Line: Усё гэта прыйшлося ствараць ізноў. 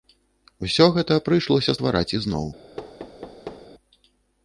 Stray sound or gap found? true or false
true